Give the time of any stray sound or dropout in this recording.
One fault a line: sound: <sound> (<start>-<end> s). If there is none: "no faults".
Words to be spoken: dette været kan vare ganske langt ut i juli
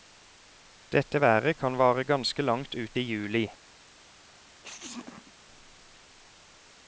sound: sneeze (4.6-5.3 s)